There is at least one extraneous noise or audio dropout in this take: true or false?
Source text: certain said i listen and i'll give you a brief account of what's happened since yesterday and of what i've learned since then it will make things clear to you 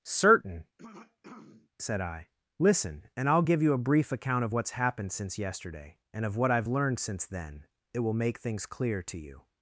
true